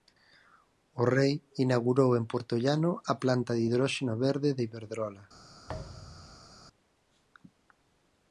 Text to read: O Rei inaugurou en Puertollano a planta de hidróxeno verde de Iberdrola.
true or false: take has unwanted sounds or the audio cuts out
true